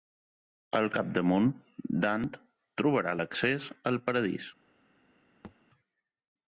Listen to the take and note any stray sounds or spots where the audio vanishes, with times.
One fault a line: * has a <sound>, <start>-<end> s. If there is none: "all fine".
* has a thud, 5.4-5.6 s